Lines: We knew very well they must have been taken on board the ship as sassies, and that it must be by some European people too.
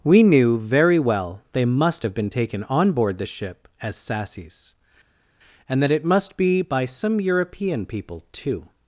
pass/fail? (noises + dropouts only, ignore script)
pass